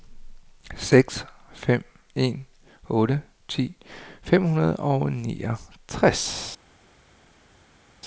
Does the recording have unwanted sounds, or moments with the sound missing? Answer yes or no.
no